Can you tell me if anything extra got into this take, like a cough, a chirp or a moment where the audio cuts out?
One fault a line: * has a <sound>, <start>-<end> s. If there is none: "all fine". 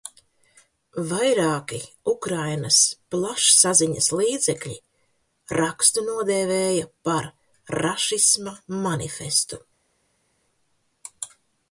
all fine